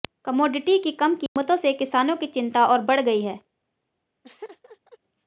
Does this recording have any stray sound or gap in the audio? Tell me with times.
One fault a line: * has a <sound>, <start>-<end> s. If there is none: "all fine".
* has a dropout, 1.3-1.4 s
* has a laugh, 4.2-5.0 s